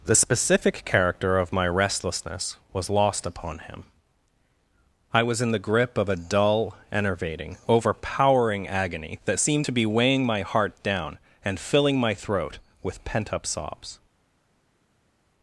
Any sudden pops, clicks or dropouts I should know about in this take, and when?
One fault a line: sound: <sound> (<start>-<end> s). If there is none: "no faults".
no faults